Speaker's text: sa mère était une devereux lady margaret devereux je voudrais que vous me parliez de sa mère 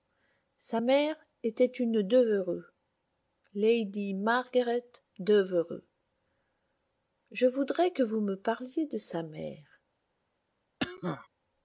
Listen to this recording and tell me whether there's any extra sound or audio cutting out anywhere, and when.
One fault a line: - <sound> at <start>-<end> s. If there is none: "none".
- cough at 10.8-11.3 s